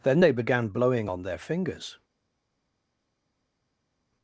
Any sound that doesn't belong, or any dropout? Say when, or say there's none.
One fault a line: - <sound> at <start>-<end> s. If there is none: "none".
none